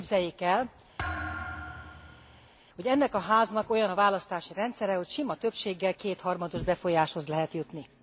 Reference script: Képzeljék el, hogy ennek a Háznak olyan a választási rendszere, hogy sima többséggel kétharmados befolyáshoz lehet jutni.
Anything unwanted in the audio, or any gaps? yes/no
yes